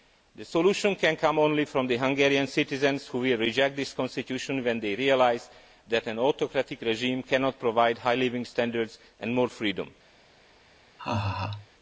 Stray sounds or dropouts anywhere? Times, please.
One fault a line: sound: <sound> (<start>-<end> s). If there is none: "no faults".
sound: laugh (11.0-11.7 s)